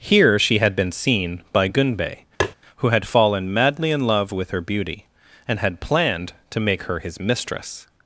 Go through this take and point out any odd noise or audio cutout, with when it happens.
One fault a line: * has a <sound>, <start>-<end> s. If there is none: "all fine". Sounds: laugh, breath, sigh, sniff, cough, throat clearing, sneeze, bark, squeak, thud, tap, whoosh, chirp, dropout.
* has a tap, 2.4-2.5 s